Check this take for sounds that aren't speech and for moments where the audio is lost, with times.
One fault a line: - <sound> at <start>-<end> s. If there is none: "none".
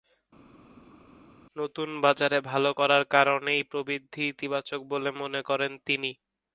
none